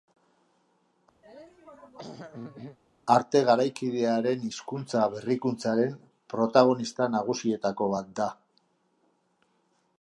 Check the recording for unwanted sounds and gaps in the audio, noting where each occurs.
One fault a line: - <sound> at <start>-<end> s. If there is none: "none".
- throat clearing at 1.2-2.8 s